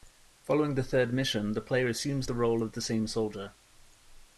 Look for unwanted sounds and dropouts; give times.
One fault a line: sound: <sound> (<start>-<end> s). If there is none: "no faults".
no faults